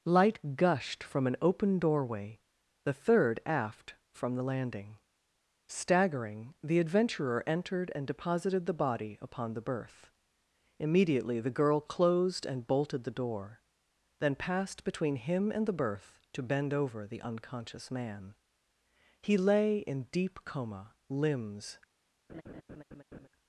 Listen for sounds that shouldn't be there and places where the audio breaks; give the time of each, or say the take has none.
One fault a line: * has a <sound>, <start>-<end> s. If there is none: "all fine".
* has a laugh, 22.3-23.3 s